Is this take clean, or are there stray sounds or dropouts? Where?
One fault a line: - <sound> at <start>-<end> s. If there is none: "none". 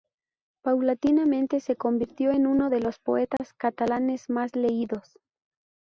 - dropout at 3.4-3.4 s